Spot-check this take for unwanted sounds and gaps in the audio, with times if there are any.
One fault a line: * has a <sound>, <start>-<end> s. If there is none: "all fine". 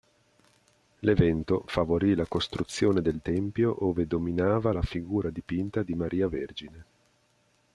all fine